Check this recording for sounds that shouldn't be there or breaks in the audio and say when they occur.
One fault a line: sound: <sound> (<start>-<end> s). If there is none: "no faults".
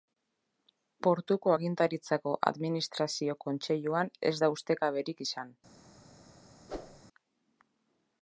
sound: whoosh (6.7-7.0 s)